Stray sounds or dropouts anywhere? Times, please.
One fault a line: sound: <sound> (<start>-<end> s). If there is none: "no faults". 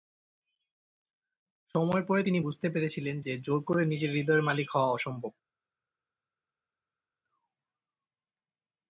no faults